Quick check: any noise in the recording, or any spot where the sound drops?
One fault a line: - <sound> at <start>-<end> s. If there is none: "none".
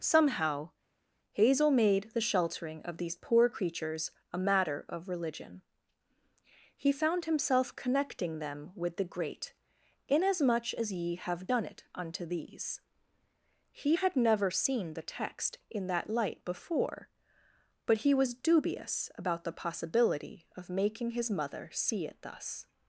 none